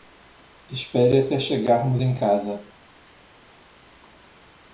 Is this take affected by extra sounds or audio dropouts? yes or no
no